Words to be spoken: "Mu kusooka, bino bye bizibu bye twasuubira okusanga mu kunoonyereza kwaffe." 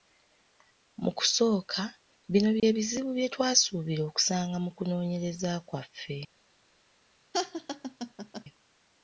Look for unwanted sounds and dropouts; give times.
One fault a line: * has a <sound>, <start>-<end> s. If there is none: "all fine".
* has a dropout, 2.6-2.6 s
* has a laugh, 7.3-8.4 s